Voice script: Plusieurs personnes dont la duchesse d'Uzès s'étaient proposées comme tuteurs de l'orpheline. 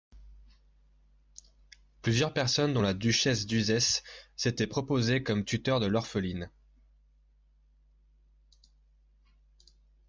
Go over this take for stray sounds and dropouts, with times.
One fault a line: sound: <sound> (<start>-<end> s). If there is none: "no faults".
no faults